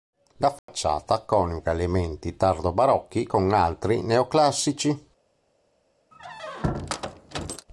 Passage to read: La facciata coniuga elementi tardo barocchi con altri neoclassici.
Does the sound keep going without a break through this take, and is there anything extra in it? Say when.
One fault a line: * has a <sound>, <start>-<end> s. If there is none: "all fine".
* has a dropout, 0.6-0.7 s
* has a squeak, 6.1-7.7 s